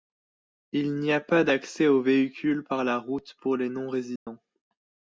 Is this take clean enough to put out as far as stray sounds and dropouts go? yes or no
no